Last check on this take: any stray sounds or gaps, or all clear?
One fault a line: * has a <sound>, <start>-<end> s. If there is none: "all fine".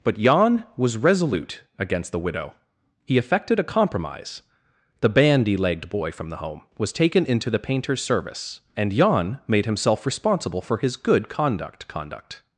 all fine